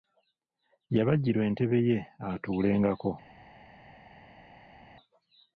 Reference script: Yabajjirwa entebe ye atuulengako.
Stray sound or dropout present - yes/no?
no